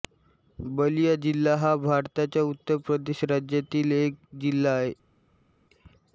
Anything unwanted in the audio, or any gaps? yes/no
no